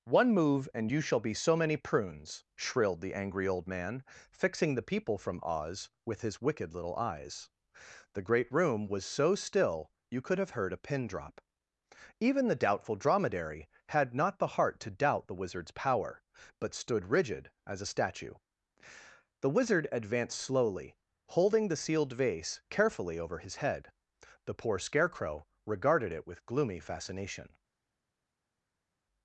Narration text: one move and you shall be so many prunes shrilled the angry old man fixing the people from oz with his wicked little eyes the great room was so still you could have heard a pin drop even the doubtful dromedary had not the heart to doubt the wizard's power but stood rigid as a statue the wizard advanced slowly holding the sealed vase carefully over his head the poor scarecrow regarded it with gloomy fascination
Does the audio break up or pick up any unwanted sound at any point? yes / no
no